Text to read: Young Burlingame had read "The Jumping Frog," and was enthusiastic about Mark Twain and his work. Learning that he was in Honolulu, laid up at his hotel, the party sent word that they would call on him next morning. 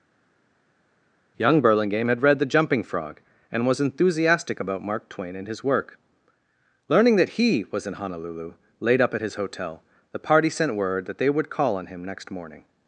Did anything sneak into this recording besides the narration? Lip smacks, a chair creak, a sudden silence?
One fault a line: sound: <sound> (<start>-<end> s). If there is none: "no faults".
no faults